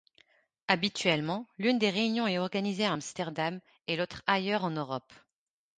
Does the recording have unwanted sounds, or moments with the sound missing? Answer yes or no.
no